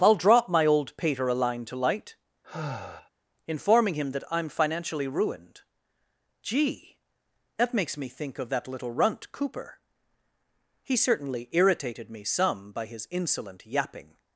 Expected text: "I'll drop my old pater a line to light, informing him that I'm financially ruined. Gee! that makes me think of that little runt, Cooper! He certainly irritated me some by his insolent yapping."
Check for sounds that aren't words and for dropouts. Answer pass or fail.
fail